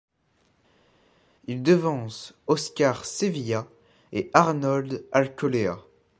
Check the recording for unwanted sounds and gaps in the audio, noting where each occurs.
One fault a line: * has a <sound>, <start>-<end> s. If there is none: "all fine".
all fine